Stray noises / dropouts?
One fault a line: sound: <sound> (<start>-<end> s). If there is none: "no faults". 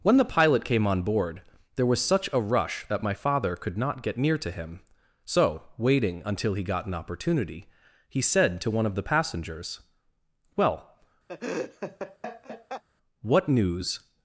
sound: laugh (11.3-12.8 s)